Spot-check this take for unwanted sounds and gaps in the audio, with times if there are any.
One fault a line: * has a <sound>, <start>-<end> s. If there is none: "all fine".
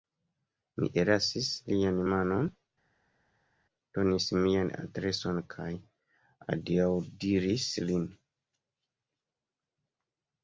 all fine